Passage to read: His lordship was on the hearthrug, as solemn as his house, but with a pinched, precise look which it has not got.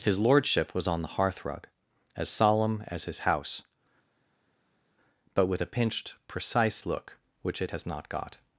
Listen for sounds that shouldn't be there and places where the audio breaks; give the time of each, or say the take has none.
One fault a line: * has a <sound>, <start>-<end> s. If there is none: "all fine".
all fine